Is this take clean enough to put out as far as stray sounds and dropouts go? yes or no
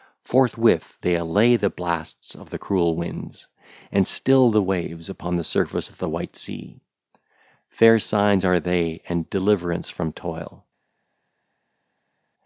yes